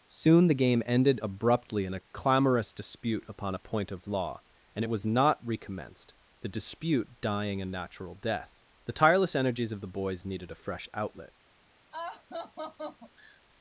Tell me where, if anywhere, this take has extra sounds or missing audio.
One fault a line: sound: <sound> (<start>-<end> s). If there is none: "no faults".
sound: laugh (11.9-13.4 s)